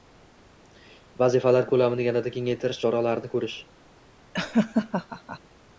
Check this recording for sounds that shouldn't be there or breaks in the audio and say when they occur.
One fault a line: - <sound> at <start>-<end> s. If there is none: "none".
- laugh at 4.3-5.4 s